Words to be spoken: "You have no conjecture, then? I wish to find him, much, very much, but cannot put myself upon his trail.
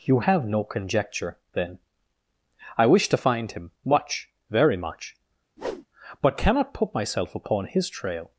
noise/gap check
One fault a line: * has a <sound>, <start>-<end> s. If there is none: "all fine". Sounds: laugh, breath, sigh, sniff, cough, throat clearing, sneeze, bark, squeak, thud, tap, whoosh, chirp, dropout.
* has a whoosh, 5.6-5.9 s